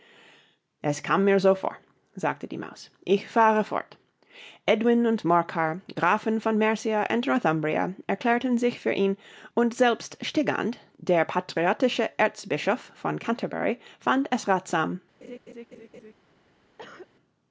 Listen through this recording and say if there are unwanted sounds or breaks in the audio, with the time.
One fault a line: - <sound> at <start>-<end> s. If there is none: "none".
- laugh at 15.2-16.1 s
- cough at 16.8-17.1 s